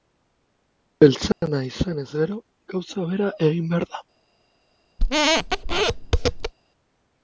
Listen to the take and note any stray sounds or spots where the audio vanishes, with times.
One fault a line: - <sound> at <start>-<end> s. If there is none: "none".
- dropout at 1.3-1.4 s
- squeak at 5.0-6.5 s